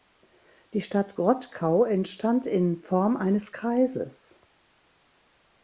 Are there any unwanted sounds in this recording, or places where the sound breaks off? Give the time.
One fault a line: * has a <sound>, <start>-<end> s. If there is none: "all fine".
all fine